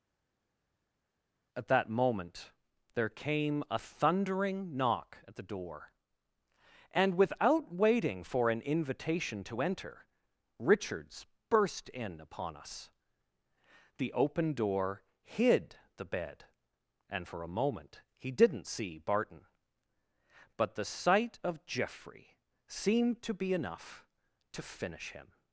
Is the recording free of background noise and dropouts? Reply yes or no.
yes